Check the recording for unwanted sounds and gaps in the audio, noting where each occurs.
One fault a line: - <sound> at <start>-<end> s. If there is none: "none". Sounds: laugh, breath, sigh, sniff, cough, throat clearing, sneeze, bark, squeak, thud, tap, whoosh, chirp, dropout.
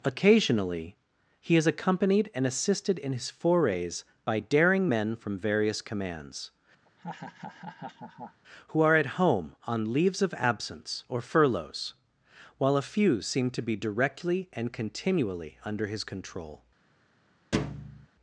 - laugh at 6.9-8.4 s
- thud at 17.5-18.1 s